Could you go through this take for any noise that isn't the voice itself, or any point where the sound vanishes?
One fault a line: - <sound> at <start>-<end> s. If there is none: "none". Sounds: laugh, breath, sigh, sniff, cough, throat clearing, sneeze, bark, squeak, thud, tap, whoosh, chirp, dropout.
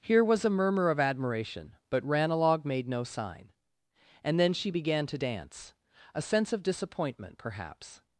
none